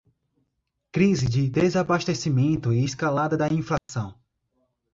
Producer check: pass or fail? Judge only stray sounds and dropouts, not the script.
fail